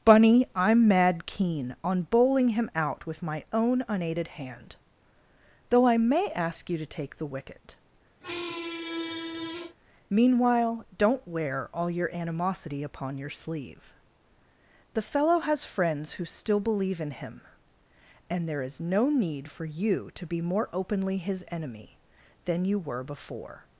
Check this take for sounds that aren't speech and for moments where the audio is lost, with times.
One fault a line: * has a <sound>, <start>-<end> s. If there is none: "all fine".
* has a squeak, 8.2-9.8 s